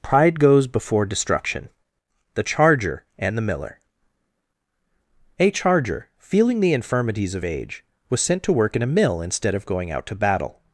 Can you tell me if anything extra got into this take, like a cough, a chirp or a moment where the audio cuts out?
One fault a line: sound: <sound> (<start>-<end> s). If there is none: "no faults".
no faults